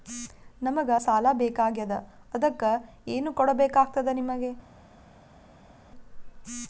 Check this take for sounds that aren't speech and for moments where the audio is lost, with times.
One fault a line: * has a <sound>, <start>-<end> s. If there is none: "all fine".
all fine